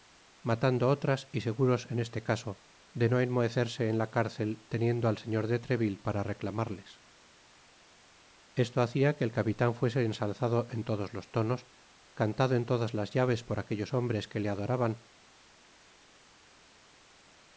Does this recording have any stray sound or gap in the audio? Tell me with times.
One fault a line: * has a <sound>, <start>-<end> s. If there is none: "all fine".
all fine